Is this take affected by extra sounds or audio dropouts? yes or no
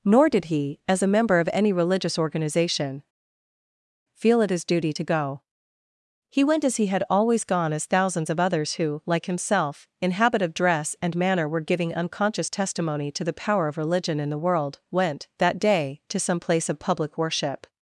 no